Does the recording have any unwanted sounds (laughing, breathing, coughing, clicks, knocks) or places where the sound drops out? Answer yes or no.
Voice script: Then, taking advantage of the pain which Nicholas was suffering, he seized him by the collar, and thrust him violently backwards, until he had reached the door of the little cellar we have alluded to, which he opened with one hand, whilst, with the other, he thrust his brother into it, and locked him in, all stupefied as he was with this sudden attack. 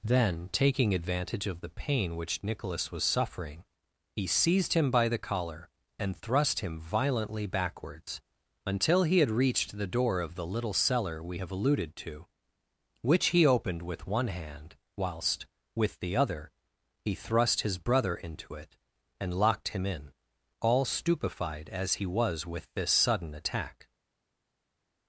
no